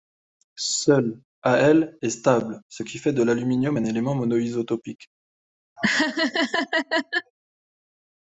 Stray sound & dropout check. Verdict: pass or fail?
fail